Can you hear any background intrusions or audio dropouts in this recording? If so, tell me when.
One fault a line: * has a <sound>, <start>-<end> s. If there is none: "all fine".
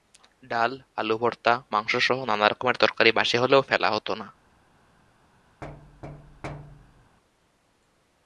* has a thud, 5.6-7.2 s